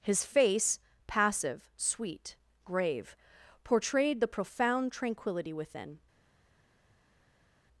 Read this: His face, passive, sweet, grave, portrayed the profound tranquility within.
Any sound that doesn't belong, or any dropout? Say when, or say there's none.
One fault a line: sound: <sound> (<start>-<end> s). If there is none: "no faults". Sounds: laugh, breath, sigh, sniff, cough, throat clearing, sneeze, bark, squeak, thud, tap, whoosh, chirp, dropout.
no faults